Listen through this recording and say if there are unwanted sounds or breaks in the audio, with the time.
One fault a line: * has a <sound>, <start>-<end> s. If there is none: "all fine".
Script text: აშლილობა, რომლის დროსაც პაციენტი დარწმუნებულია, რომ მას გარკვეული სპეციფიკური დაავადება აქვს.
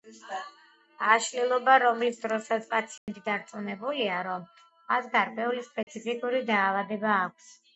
* has a dropout, 3.0-3.1 s
* has a dropout, 5.8-5.9 s